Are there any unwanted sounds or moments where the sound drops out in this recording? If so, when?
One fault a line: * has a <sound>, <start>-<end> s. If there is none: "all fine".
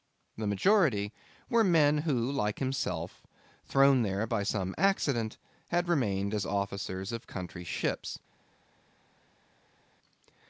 all fine